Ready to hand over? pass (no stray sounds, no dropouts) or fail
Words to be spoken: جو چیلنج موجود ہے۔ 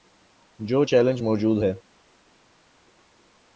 pass